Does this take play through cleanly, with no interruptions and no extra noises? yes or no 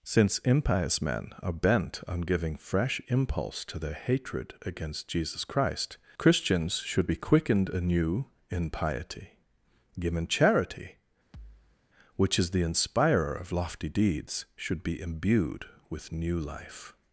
no